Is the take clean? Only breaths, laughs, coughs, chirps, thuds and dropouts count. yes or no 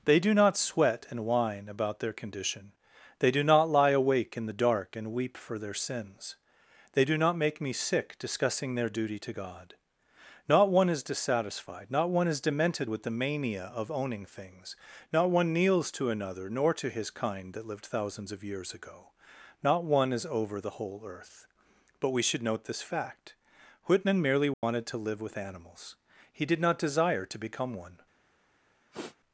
no